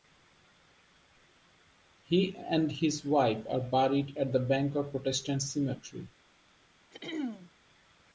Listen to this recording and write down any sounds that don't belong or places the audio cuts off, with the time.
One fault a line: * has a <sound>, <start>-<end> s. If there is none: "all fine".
* has a throat clearing, 6.9-7.5 s